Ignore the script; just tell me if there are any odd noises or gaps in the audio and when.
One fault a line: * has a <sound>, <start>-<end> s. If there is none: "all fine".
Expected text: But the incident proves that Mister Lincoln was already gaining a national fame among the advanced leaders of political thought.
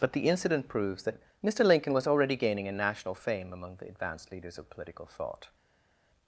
all fine